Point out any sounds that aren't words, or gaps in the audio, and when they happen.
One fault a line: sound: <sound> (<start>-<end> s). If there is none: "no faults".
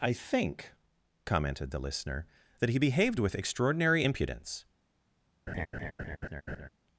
sound: laugh (5.5-6.7 s)